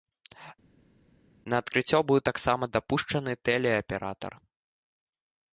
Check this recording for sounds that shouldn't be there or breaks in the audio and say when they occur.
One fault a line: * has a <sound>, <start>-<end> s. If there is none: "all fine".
all fine